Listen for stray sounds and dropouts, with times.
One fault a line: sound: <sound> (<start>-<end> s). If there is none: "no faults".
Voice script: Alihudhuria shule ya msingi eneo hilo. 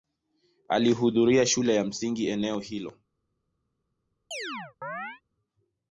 sound: chirp (4.3-5.2 s)